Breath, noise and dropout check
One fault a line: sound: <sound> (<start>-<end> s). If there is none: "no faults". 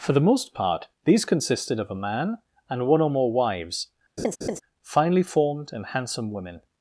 sound: laugh (4.2-4.6 s)